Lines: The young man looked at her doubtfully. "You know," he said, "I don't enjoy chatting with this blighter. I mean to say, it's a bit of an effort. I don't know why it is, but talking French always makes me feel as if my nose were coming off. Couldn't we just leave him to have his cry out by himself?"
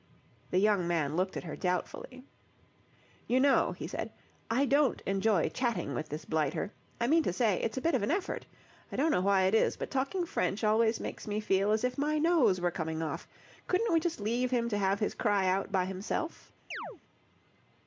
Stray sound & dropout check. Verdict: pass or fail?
fail